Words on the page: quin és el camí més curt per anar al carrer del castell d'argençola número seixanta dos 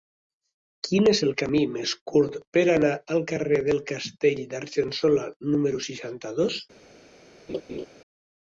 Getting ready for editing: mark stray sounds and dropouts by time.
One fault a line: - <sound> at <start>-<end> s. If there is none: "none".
- laugh at 7.5-7.9 s